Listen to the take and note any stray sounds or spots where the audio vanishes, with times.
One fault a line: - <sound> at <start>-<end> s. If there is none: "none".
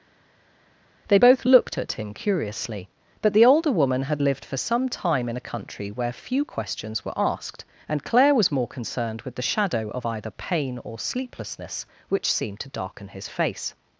none